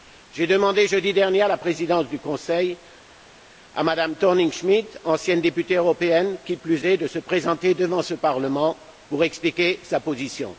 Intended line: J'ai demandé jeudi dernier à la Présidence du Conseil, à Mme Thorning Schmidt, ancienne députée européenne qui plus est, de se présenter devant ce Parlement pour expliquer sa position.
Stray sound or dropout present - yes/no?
no